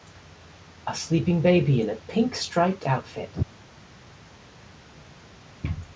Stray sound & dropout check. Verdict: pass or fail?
pass